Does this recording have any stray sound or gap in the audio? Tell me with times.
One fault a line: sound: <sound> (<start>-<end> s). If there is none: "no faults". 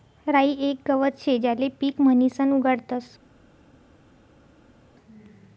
no faults